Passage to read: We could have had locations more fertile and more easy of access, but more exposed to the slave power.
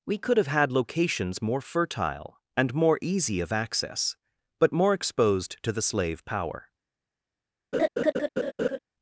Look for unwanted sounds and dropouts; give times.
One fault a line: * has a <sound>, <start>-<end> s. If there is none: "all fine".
* has a laugh, 7.7-8.8 s